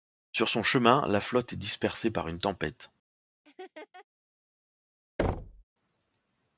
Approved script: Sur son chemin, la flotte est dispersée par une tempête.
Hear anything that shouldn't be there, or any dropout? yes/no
yes